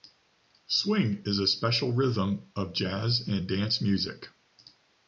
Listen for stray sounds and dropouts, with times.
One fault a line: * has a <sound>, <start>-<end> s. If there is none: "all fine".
all fine